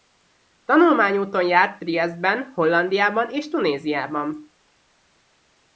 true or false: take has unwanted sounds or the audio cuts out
false